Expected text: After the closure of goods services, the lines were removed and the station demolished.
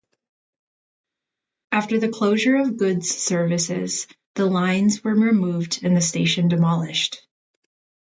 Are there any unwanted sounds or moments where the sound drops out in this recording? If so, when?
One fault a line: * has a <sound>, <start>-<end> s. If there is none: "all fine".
all fine